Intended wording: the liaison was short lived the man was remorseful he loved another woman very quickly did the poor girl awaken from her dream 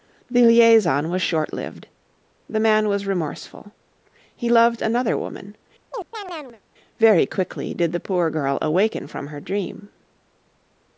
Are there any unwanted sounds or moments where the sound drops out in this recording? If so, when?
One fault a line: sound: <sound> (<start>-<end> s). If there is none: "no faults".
sound: chirp (5.9-6.6 s)